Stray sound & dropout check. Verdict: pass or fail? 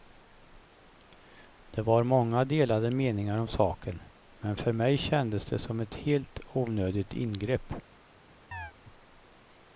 fail